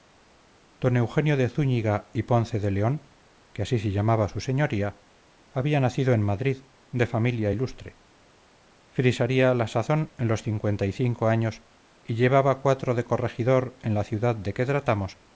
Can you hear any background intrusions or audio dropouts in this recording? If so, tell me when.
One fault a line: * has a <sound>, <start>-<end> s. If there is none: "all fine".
all fine